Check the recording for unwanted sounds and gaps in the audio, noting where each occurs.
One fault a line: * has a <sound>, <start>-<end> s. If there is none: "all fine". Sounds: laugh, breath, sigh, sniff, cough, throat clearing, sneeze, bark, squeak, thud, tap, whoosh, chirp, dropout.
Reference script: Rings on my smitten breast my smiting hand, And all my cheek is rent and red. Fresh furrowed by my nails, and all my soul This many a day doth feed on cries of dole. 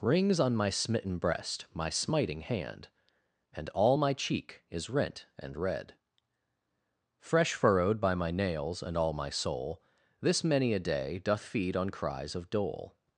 all fine